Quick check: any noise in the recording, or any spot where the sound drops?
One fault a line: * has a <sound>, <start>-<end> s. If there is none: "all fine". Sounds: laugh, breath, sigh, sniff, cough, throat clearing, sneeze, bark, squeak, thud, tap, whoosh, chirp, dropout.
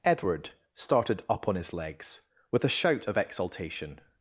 all fine